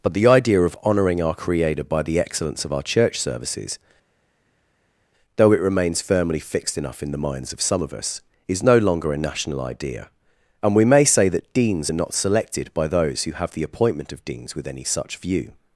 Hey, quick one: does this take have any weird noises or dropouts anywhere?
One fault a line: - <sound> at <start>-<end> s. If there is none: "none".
none